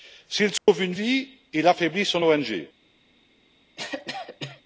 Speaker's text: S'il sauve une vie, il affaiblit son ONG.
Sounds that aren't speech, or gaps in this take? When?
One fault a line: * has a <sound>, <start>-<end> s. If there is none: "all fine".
* has a dropout, 0.6-0.7 s
* has a cough, 3.8-4.6 s